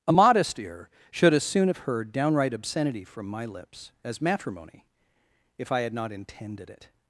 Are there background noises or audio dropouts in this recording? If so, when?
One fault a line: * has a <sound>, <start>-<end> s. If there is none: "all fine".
all fine